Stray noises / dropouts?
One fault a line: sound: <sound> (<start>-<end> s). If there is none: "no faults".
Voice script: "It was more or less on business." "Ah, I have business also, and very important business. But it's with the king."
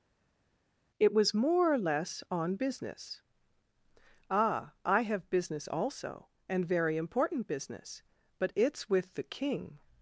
no faults